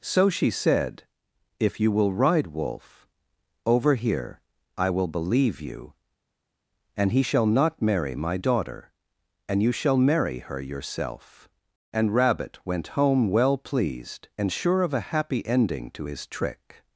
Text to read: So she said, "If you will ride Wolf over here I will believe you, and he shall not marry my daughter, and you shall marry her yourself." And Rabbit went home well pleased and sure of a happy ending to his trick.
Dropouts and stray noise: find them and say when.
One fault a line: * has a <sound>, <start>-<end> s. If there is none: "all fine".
all fine